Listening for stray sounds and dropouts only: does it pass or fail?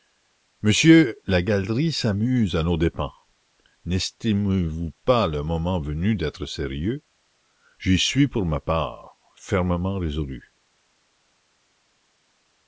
pass